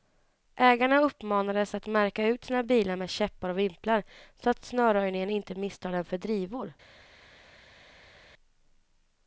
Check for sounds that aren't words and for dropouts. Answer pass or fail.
pass